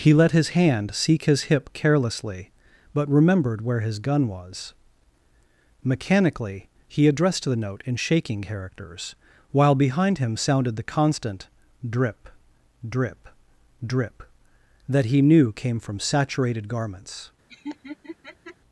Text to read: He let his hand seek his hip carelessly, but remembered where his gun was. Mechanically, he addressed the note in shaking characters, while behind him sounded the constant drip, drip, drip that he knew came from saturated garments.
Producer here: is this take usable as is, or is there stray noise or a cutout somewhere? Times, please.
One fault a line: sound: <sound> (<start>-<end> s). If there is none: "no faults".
sound: laugh (17.5-18.6 s)